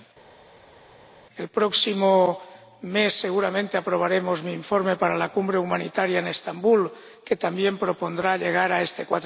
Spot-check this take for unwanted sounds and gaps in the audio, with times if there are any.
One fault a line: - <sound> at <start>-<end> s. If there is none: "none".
none